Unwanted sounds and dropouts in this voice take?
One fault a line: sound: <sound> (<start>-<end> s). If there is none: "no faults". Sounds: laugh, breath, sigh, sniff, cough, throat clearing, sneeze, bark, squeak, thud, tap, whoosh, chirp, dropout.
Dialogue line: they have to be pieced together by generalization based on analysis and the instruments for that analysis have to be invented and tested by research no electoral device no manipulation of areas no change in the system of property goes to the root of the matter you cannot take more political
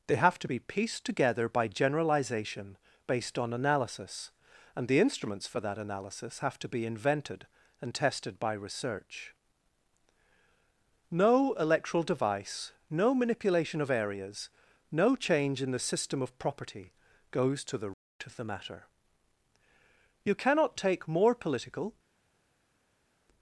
no faults